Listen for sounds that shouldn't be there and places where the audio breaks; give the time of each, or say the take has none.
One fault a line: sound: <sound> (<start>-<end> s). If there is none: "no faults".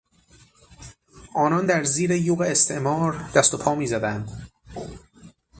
no faults